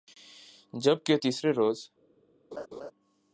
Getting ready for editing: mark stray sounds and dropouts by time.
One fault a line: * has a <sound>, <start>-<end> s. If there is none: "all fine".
* has a laugh, 2.5-2.9 s